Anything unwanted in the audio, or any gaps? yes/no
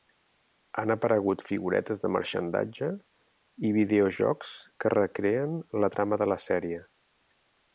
no